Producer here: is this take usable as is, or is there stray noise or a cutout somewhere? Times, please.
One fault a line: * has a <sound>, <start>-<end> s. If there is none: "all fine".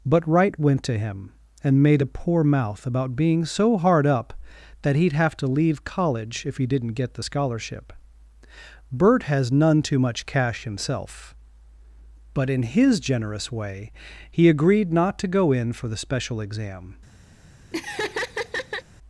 * has a laugh, 17.7-18.8 s